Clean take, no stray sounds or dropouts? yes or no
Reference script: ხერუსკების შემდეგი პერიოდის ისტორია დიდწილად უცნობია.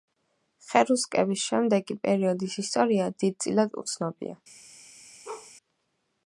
no